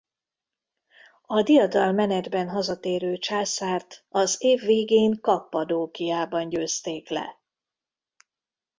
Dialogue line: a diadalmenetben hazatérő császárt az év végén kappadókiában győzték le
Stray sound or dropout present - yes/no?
no